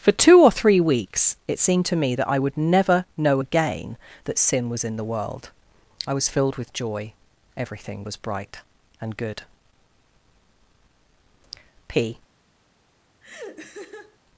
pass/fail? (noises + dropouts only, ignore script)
fail